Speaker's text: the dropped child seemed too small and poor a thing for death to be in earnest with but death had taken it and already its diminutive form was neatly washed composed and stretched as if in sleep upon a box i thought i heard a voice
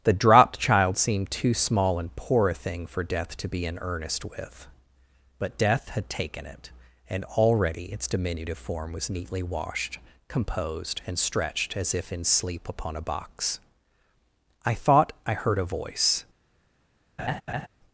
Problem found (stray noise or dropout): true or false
true